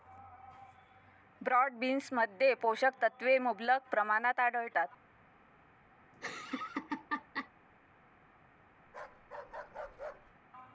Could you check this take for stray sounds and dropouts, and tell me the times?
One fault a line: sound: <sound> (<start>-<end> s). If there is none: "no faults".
sound: laugh (6.1-7.5 s)
sound: bark (8.9-10.3 s)